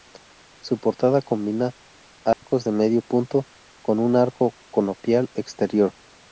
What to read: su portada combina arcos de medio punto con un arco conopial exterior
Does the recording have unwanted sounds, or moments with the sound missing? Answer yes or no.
yes